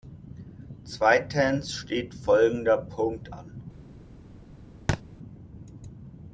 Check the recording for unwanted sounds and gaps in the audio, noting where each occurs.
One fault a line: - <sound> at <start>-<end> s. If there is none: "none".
- thud at 4.9-5.0 s